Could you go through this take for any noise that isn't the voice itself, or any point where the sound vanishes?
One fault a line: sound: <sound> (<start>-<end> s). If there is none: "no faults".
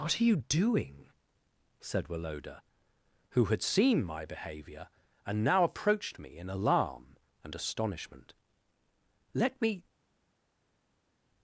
no faults